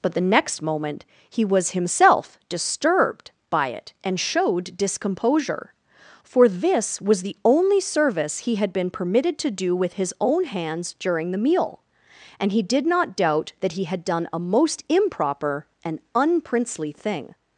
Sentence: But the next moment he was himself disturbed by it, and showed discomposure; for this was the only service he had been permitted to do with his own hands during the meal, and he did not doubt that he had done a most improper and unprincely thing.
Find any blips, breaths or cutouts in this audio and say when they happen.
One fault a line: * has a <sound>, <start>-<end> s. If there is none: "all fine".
all fine